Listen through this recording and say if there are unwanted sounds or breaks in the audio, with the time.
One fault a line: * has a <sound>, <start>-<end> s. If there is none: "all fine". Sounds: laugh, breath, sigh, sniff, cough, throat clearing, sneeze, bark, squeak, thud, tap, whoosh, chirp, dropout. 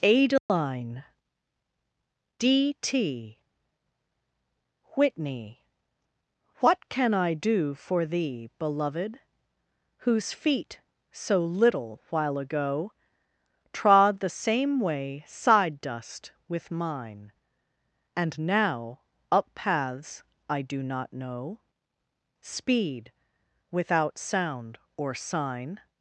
* has a dropout, 0.4-0.5 s